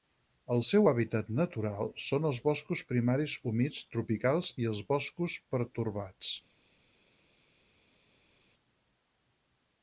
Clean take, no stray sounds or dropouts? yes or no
yes